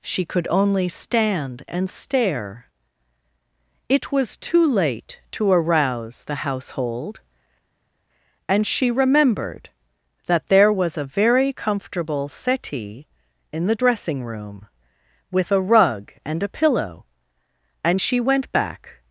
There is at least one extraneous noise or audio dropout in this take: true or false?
false